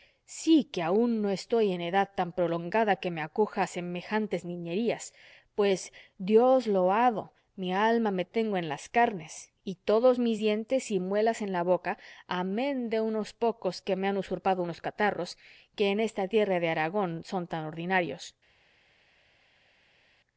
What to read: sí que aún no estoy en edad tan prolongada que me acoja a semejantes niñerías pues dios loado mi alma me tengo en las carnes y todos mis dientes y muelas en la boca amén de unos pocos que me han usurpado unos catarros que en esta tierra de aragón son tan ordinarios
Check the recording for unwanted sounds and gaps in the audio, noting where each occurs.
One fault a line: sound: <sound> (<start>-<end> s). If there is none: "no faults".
no faults